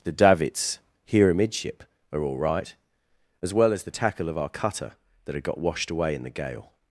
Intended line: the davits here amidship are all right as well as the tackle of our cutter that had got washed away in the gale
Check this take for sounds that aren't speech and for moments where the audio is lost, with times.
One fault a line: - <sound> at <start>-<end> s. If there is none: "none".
none